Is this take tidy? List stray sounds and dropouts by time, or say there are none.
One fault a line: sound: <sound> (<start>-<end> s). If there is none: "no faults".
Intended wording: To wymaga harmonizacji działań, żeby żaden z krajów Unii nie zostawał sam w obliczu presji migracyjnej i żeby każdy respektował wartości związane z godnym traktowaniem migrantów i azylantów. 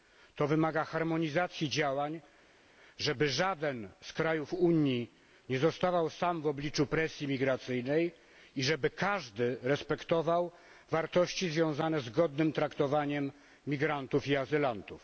no faults